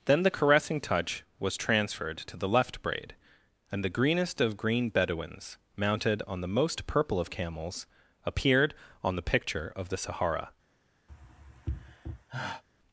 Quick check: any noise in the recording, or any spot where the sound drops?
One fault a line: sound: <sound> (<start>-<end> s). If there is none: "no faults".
sound: sigh (11.1-12.6 s)